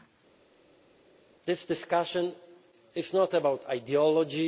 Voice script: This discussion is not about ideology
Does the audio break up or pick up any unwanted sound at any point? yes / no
no